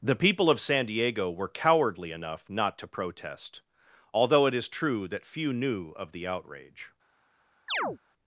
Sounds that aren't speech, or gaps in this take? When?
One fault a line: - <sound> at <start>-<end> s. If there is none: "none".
- chirp at 7.7-8.0 s